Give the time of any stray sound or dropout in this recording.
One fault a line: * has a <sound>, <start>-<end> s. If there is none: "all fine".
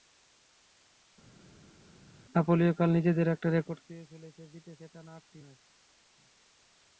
all fine